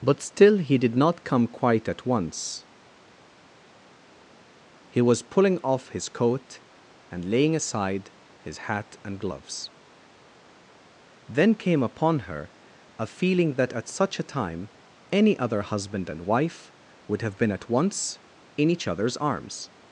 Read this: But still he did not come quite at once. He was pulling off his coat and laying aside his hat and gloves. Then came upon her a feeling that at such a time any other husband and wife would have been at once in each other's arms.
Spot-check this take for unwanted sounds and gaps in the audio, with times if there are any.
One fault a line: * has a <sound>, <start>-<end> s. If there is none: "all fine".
all fine